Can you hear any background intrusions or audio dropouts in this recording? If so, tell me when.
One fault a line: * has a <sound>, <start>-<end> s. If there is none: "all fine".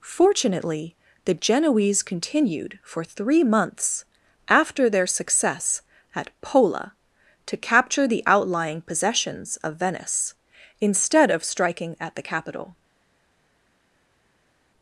all fine